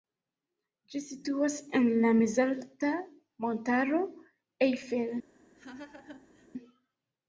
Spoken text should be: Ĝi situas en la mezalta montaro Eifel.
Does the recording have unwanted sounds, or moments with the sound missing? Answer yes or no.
yes